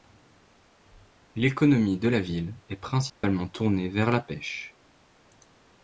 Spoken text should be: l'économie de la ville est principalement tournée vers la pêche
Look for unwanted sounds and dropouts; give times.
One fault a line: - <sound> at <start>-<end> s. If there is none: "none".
- dropout at 3.1-3.2 s